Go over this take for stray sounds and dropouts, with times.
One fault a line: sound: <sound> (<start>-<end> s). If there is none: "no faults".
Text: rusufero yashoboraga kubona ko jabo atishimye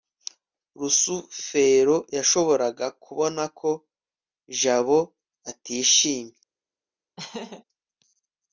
sound: laugh (7.2-7.6 s)